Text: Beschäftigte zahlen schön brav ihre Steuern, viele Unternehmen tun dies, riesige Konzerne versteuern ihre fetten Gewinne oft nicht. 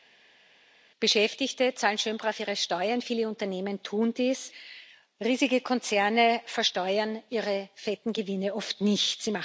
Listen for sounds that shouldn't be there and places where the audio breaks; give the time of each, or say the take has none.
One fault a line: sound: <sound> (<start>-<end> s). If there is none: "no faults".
no faults